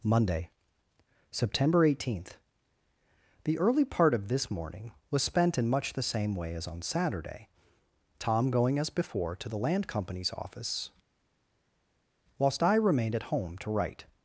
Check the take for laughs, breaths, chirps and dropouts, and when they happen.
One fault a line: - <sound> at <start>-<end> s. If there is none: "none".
none